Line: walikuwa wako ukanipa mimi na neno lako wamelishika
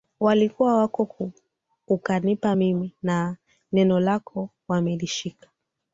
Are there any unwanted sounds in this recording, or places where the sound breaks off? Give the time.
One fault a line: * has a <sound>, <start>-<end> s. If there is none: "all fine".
all fine